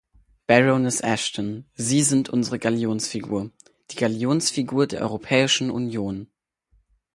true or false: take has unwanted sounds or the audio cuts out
false